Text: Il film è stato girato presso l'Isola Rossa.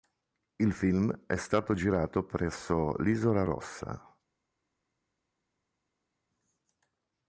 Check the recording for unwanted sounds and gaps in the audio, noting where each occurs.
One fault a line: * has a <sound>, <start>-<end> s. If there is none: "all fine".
all fine